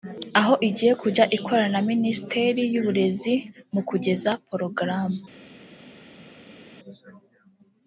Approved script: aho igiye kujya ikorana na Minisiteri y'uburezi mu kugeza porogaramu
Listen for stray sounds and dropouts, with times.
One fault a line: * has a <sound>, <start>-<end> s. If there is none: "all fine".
all fine